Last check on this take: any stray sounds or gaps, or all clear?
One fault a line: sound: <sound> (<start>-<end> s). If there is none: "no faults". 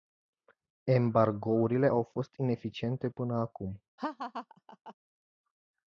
sound: laugh (4.0-4.9 s)